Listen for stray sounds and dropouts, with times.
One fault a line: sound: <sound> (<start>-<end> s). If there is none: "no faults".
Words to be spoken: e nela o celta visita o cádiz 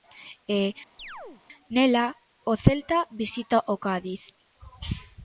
sound: chirp (1.0-1.4 s)